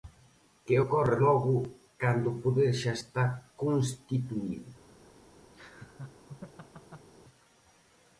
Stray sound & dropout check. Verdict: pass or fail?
fail